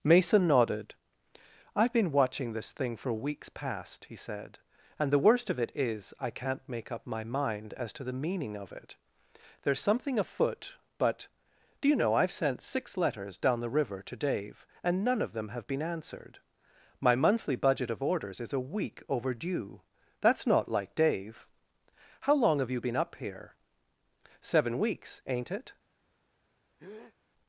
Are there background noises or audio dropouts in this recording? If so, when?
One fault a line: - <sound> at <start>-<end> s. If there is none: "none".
- breath at 26.8-27.2 s